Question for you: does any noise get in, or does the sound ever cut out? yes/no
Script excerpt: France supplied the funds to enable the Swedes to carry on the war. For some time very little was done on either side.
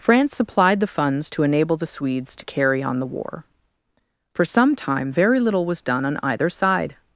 no